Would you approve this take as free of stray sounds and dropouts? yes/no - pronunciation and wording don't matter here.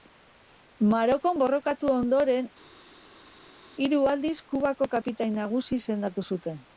yes